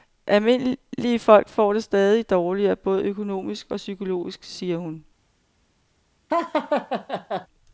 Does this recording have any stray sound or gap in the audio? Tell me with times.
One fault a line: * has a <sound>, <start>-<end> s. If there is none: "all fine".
* has a laugh, 6.3-7.5 s